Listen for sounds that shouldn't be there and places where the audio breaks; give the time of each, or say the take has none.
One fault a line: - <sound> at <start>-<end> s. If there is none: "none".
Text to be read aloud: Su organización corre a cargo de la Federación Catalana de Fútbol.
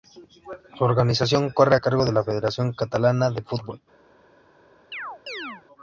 - chirp at 4.9-5.6 s